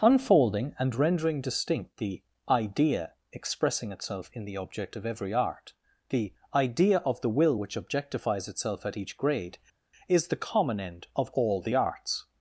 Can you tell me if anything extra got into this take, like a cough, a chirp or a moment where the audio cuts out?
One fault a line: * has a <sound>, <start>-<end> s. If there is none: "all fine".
all fine